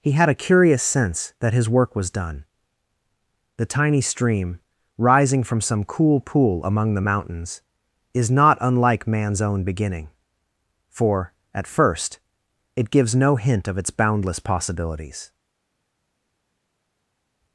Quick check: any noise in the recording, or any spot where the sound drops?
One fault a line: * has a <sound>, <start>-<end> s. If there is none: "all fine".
all fine